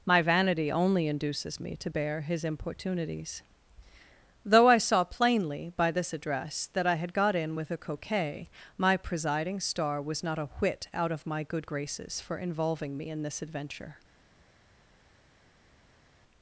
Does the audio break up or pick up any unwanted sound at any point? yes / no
no